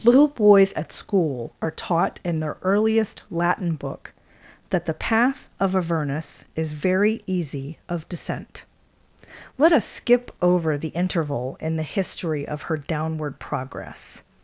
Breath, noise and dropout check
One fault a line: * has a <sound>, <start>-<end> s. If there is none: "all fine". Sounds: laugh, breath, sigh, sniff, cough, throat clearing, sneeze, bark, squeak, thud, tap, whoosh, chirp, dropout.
all fine